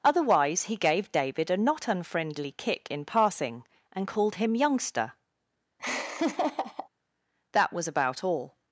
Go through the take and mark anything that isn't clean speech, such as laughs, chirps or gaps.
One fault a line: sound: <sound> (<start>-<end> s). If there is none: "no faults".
sound: laugh (5.8-6.9 s)